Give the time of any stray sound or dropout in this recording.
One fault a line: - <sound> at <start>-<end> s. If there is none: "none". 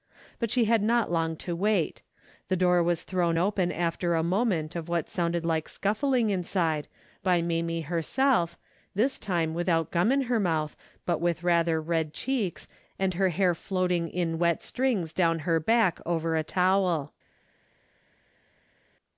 none